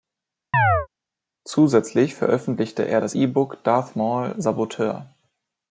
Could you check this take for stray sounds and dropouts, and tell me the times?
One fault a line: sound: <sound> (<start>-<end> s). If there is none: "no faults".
sound: chirp (0.5-0.9 s)